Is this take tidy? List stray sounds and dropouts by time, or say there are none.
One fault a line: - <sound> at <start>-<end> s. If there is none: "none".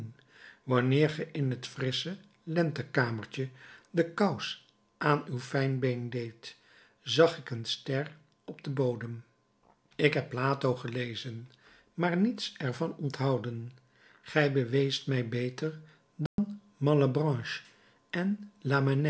- dropout at 16.3-16.4 s